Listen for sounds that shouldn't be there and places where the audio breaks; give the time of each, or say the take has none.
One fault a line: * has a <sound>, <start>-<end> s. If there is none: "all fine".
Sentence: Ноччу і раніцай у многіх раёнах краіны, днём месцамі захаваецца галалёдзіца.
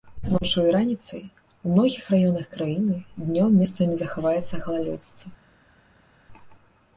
all fine